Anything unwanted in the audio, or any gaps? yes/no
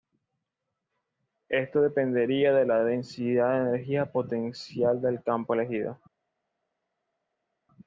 no